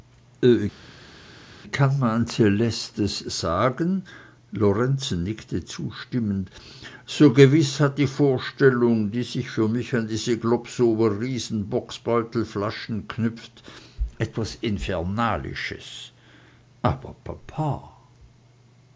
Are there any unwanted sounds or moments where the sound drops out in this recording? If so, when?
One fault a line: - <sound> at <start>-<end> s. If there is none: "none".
none